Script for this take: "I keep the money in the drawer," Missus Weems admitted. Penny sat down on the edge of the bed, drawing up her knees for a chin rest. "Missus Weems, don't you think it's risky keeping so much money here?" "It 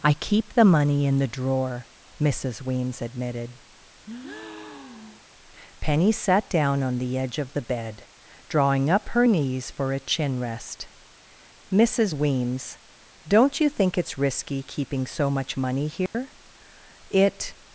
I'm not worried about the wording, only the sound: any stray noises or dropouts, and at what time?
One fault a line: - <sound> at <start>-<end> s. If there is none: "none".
- breath at 4.0-5.3 s
- dropout at 16.1-16.1 s